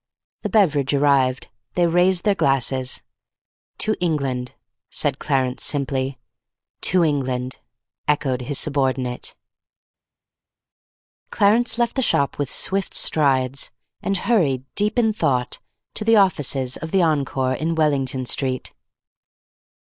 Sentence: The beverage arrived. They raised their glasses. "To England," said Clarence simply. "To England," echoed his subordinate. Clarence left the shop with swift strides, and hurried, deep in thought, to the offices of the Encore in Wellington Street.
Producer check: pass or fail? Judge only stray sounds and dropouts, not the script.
pass